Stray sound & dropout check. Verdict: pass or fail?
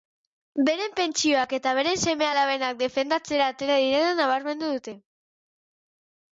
pass